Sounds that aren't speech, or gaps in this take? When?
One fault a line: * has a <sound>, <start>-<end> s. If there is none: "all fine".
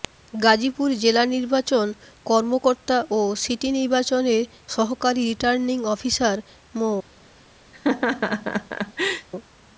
* has a laugh, 7.7-9.3 s